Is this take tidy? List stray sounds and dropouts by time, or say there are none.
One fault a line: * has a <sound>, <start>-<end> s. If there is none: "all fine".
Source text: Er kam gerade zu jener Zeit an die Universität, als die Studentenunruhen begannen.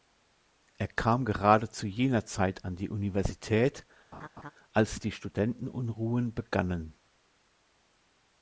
* has a laugh, 4.1-4.5 s